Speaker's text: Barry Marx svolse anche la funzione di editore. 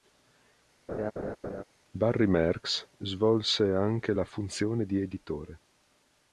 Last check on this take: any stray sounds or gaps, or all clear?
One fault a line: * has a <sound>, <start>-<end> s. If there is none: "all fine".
* has a laugh, 0.9-1.6 s